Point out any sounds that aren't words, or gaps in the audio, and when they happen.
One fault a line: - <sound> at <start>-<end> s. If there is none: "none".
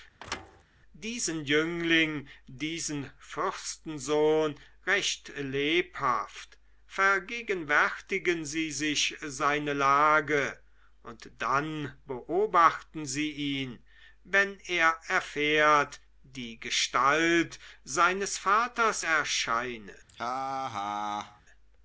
- thud at 0.2-0.6 s
- laugh at 20.1-21.4 s